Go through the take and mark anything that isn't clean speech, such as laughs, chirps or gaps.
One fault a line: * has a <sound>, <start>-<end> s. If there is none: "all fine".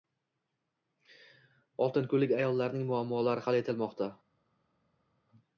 all fine